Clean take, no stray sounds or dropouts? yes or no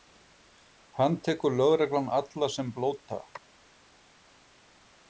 yes